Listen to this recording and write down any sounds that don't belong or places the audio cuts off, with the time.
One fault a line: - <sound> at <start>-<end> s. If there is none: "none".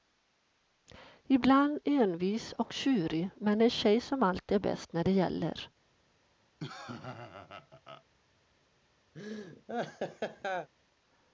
- laugh at 6.6-8.0 s
- laugh at 9.1-10.7 s